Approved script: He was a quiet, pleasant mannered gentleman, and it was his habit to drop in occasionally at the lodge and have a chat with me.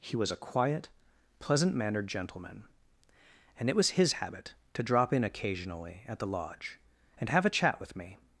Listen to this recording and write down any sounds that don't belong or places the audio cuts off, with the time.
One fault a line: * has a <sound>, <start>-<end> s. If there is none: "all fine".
all fine